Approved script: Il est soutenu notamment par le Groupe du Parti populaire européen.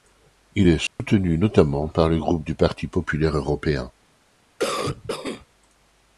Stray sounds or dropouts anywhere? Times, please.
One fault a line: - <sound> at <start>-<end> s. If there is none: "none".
- dropout at 0.9-1.0 s
- cough at 4.6-5.5 s